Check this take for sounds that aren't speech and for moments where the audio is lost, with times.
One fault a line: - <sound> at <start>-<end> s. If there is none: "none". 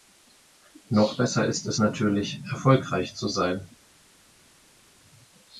none